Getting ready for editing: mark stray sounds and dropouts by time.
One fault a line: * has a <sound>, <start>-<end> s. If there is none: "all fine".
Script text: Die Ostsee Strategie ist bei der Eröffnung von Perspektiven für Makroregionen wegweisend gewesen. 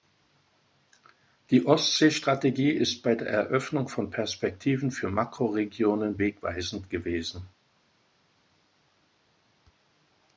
all fine